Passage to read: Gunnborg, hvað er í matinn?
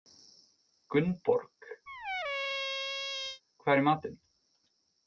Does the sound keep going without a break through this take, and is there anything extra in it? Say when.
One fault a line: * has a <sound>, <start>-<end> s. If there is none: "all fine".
* has a squeak, 1.9-3.4 s